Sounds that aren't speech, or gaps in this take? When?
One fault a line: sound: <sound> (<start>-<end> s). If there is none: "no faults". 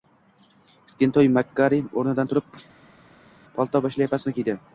no faults